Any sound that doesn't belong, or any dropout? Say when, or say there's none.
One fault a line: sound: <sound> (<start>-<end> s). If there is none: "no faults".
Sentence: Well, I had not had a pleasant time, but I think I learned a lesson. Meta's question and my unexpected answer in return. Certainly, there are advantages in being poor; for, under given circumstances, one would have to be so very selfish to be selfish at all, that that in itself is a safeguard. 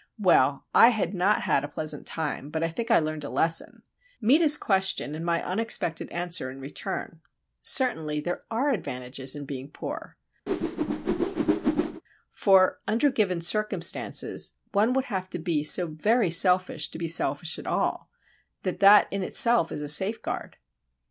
sound: whoosh (10.5-12.0 s)